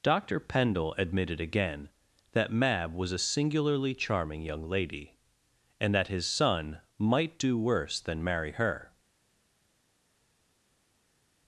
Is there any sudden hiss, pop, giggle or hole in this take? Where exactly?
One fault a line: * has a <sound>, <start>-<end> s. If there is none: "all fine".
all fine